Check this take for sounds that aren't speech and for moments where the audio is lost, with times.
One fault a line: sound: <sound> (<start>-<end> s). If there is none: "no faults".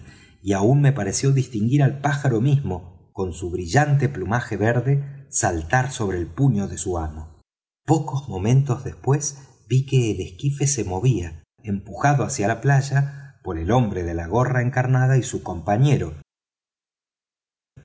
no faults